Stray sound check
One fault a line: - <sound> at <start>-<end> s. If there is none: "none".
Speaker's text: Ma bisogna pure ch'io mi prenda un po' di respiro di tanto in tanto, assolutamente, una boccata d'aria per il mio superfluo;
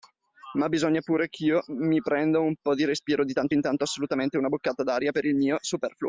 none